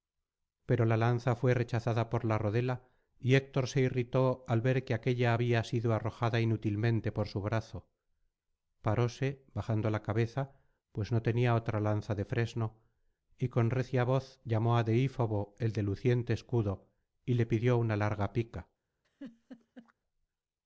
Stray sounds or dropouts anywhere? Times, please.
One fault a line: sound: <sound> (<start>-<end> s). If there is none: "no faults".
sound: laugh (19.0-19.9 s)